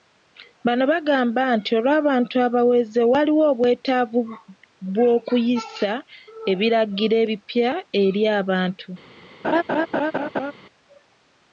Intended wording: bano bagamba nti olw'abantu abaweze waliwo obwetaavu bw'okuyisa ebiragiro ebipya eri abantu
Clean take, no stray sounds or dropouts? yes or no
no